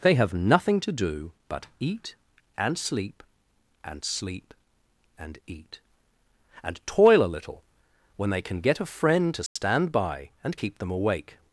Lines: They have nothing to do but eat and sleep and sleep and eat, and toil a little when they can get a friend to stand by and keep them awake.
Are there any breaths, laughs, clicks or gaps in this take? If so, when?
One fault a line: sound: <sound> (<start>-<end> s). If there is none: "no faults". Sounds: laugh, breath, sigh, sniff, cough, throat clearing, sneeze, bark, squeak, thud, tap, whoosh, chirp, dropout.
sound: dropout (9.5-9.6 s)